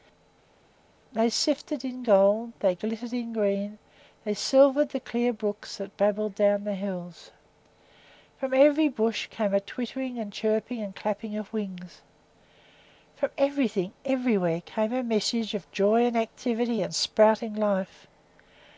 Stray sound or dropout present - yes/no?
no